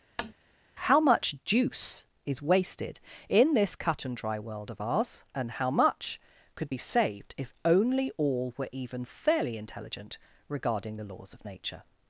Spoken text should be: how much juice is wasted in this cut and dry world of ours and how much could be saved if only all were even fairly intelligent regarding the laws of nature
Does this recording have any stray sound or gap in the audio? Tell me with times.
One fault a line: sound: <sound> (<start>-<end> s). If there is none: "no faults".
sound: tap (0.2-0.3 s)